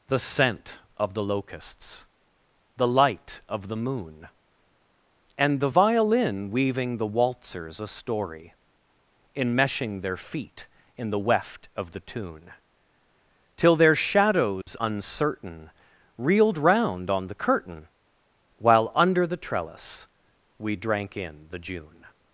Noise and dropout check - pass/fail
fail